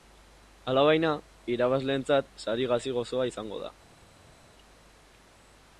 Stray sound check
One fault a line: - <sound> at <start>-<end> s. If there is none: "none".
none